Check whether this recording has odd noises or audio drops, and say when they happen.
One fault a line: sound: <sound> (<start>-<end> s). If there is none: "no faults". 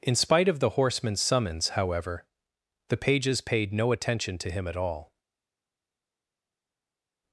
no faults